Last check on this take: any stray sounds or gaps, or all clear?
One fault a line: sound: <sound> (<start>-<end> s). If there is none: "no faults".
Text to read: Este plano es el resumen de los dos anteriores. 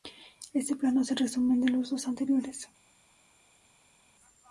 no faults